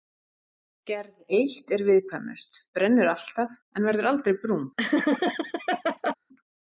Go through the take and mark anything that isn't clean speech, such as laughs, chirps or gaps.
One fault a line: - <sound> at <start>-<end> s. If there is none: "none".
- laugh at 4.8-6.1 s